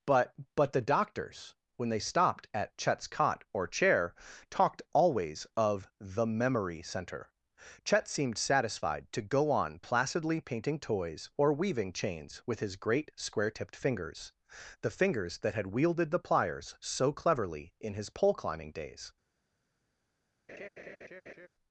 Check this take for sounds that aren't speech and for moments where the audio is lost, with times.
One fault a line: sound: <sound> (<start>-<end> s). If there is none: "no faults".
sound: laugh (20.5-21.5 s)